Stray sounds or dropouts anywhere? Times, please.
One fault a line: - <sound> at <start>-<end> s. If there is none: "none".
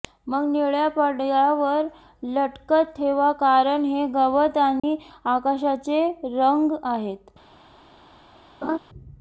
- dropout at 4.8-4.8 s
- laugh at 8.6-8.8 s